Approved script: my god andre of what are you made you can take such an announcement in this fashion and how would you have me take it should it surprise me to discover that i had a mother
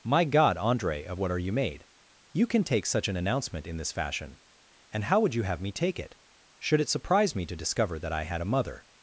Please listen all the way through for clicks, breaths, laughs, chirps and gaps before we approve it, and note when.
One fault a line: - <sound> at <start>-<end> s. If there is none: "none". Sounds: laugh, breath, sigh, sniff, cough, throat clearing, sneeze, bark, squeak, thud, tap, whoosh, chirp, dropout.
none